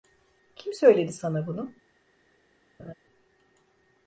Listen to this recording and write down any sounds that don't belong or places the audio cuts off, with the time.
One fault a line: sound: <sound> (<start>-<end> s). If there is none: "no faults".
sound: laugh (2.8-2.9 s)